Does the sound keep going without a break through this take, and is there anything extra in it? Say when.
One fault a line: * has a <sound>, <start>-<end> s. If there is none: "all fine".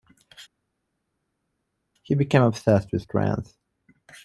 all fine